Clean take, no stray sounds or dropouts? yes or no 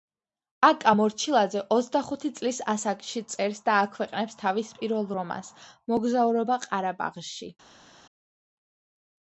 yes